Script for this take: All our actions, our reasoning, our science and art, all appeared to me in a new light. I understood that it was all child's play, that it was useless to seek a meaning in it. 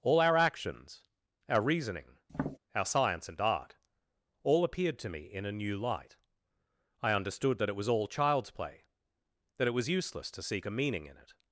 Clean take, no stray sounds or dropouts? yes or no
no